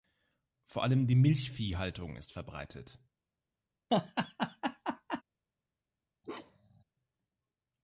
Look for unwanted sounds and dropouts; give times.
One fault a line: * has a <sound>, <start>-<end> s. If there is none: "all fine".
* has a laugh, 3.9-5.2 s
* has a bark, 6.2-6.8 s